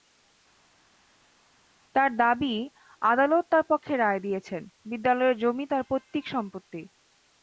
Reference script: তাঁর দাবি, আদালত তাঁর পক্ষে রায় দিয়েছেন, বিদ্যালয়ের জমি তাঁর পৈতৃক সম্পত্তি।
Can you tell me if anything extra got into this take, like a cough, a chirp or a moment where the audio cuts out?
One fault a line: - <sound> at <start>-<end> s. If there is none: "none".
none